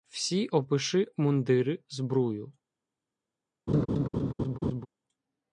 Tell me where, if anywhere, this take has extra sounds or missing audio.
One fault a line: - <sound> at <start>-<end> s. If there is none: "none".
- laugh at 3.7-4.9 s